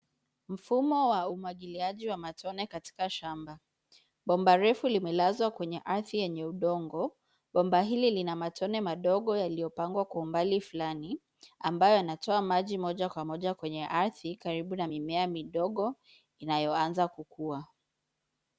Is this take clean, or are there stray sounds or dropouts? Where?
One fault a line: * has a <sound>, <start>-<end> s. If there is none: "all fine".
all fine